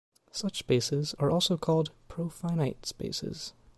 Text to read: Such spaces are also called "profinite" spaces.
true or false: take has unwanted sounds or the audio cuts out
false